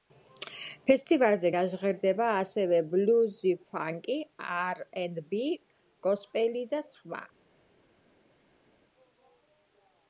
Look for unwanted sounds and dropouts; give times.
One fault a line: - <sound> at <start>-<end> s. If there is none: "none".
none